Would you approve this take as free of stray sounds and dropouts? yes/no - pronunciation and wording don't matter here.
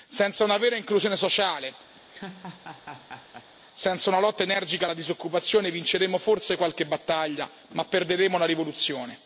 no